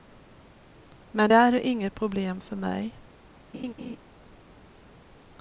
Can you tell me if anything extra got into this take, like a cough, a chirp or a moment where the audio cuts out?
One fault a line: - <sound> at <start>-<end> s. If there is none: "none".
- laugh at 3.5-4.0 s